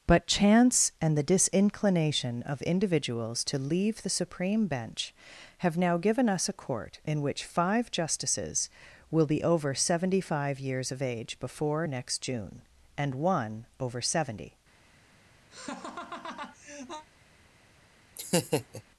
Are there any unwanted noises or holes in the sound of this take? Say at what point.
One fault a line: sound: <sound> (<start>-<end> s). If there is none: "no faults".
sound: laugh (15.5-17.1 s)
sound: laugh (18.2-18.8 s)